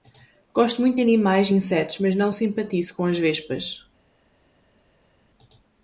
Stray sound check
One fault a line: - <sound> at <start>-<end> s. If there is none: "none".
none